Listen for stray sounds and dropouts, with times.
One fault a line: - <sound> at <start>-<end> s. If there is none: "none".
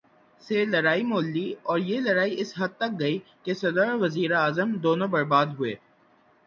none